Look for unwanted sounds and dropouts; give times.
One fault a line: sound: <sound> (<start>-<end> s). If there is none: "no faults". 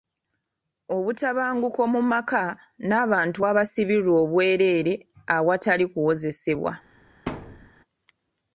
sound: thud (7.3-7.7 s)